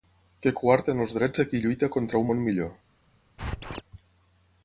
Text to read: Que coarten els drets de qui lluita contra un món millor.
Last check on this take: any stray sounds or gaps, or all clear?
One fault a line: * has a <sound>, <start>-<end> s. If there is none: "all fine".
* has a squeak, 3.4-3.8 s